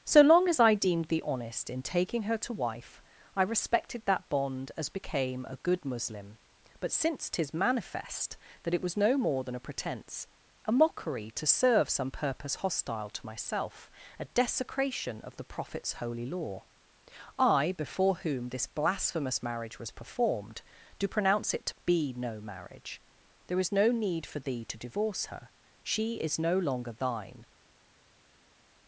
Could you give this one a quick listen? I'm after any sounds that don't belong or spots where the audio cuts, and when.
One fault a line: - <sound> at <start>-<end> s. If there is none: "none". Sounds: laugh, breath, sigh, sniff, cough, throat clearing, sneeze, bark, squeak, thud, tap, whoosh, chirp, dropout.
none